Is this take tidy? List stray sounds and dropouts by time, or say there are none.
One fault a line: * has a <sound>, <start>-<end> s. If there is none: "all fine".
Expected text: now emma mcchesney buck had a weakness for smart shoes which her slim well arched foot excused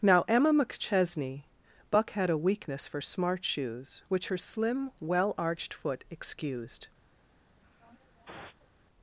* has a sniff, 7.6-8.7 s